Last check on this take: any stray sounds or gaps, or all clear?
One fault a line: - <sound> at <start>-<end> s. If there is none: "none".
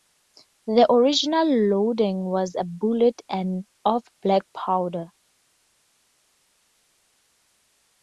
none